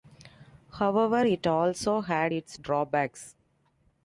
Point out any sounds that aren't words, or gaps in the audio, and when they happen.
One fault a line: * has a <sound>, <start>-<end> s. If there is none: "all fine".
all fine